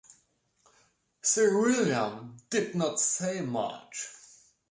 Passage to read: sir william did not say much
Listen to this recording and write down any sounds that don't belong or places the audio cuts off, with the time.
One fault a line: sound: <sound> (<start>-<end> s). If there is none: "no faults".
no faults